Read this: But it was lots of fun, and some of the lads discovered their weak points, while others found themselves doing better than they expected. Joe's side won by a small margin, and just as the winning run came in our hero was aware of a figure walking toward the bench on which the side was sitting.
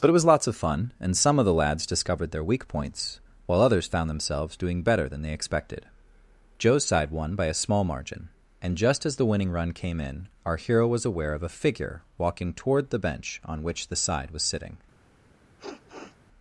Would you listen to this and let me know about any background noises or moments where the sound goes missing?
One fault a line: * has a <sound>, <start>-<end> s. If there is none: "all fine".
* has a sniff, 15.6-16.2 s